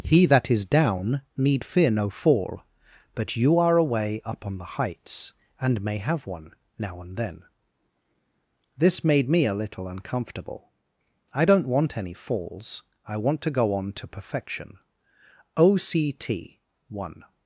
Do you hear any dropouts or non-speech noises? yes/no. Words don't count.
no